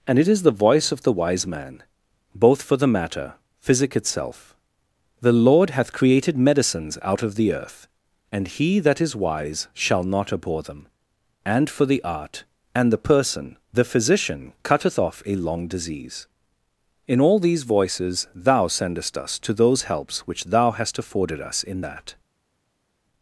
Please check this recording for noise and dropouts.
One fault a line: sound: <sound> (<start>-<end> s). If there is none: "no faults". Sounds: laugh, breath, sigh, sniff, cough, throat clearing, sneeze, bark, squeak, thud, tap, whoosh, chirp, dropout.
no faults